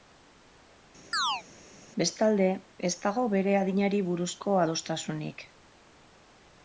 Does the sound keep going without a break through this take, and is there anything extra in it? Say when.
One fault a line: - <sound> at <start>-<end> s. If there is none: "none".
- chirp at 1.1-1.4 s